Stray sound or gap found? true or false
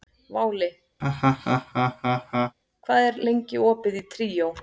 true